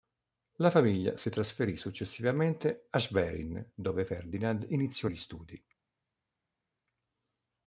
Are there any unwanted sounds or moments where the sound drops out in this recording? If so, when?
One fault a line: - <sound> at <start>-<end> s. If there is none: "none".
none